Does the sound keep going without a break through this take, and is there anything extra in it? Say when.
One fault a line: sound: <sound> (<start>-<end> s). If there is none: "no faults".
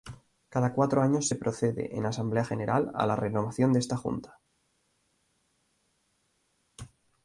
no faults